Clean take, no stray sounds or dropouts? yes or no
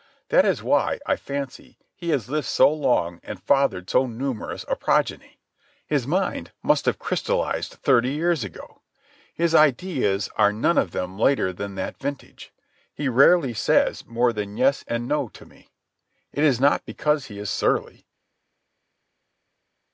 yes